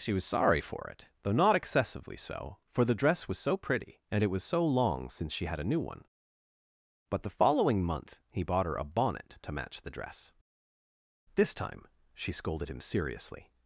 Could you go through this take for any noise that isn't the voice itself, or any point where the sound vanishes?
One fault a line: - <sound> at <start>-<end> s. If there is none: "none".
none